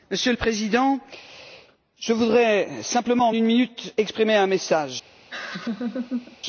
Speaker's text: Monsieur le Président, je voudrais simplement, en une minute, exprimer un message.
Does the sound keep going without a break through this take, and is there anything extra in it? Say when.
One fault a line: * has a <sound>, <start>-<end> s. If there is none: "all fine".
* has a laugh, 5.3-6.4 s